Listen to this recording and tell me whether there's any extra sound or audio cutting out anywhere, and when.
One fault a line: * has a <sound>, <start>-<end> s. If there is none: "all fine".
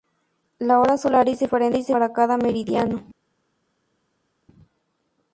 all fine